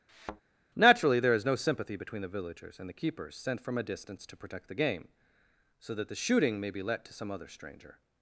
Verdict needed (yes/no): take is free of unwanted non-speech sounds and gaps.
no